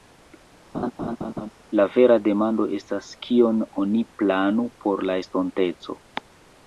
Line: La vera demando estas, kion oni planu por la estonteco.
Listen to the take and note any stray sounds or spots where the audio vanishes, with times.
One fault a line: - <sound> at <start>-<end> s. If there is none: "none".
- laugh at 0.7-1.5 s